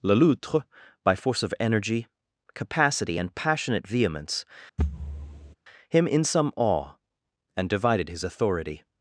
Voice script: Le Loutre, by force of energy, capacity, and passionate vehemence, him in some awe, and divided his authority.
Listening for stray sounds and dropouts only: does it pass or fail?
fail